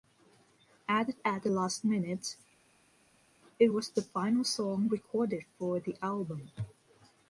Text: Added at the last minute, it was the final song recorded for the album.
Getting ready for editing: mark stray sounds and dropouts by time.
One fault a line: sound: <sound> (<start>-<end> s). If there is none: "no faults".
no faults